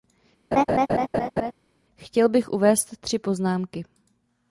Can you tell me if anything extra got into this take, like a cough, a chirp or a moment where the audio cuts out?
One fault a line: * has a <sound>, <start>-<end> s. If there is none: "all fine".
* has a laugh, 0.5-1.5 s